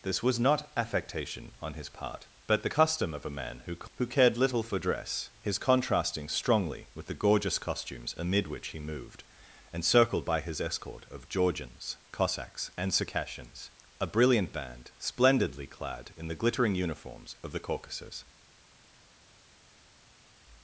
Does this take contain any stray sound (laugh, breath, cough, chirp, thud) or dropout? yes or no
no